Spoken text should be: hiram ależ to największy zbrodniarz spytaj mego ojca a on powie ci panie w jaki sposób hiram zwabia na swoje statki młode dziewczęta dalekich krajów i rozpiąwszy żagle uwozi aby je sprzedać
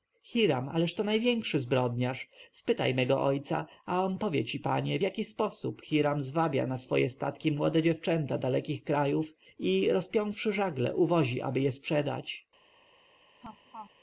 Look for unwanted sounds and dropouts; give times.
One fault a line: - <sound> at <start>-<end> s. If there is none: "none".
- laugh at 13.4-13.9 s